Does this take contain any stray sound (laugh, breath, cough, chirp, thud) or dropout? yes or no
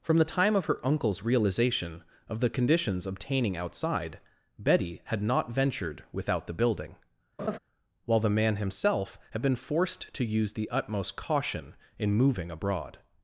yes